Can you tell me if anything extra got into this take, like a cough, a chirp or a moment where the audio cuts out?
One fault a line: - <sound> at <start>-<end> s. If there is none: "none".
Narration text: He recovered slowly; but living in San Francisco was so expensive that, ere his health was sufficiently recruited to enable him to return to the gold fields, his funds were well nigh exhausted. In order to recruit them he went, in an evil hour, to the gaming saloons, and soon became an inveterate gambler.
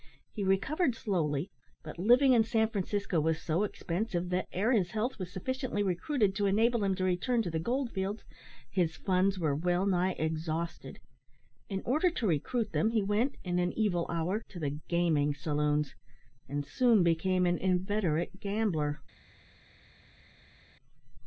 none